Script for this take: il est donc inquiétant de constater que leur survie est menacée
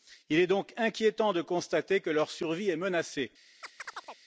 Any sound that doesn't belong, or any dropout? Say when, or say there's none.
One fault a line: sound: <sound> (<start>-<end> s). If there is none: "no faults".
sound: chirp (3.6-4.2 s)